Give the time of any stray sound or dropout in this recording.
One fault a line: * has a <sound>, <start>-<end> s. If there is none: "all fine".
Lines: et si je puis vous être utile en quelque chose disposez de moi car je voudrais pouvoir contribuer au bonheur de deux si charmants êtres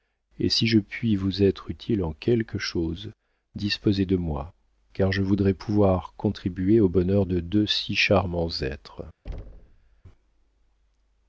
* has a thud, 9.3-10.0 s